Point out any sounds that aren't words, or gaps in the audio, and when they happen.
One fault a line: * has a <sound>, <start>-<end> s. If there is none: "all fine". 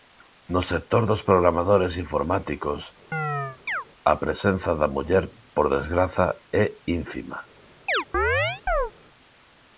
* has a chirp, 3.1-3.8 s
* has a chirp, 7.9-8.9 s